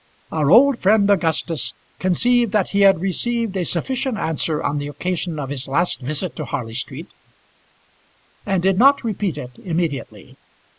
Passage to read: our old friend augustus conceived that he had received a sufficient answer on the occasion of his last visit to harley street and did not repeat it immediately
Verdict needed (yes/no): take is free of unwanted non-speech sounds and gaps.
yes